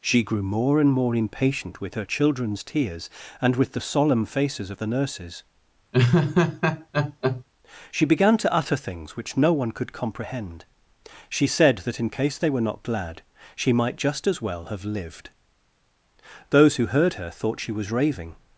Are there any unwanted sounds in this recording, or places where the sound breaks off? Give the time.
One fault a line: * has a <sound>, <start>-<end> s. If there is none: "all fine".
* has a laugh, 5.9-7.4 s